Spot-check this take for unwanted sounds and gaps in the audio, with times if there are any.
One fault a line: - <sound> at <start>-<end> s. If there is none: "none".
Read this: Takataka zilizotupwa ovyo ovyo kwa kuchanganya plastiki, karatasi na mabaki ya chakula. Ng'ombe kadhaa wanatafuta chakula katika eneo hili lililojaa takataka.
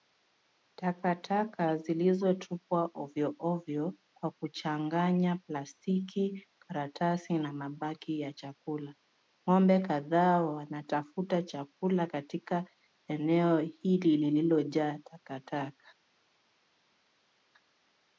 none